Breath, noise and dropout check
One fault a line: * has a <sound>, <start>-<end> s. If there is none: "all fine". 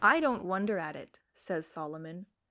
all fine